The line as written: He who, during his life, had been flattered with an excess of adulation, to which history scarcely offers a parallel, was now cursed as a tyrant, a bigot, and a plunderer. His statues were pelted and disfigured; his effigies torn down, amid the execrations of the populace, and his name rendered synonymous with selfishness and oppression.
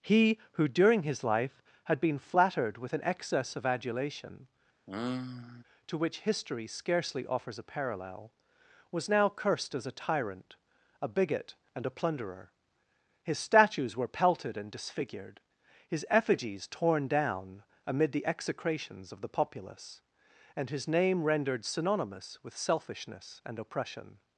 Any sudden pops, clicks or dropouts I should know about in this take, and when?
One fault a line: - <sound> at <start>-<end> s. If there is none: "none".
- sigh at 4.9-5.6 s